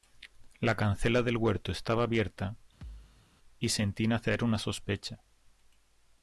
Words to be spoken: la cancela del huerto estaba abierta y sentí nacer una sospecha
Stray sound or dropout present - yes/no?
yes